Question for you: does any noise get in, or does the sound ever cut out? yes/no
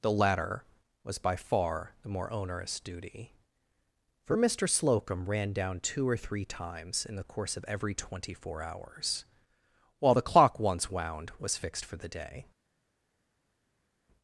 no